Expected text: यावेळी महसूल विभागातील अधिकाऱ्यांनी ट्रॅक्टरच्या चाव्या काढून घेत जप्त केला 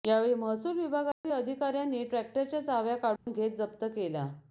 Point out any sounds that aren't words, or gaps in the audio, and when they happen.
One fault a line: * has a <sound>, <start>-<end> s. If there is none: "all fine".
* has a dropout, 1.1-1.2 s
* has a dropout, 3.2-3.3 s